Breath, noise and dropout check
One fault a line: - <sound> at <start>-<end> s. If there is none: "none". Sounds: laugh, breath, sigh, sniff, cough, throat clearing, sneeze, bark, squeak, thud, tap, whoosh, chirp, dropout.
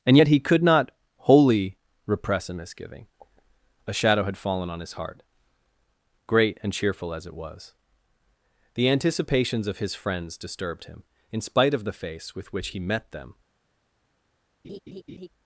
- laugh at 14.6-15.3 s